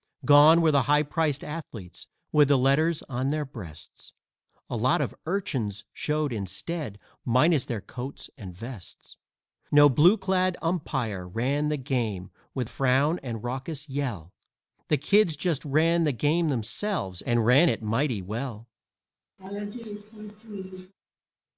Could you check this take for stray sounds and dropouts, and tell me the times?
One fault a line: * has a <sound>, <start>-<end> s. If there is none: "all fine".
* has a laugh, 19.4-20.9 s